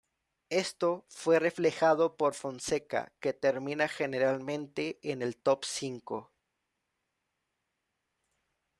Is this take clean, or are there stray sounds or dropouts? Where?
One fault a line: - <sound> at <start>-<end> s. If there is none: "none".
none